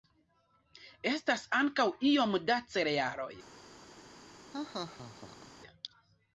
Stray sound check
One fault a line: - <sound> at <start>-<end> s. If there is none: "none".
- laugh at 4.5-5.5 s